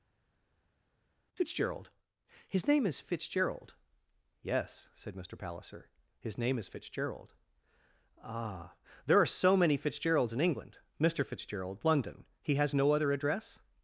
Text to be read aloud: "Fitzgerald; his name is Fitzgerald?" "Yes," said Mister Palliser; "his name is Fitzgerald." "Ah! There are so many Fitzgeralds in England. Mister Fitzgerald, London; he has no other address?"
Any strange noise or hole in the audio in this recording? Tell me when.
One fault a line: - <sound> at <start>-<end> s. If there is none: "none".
none